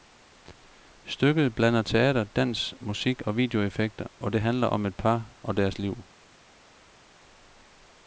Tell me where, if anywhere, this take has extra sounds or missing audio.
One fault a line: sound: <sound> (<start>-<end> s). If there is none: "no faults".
no faults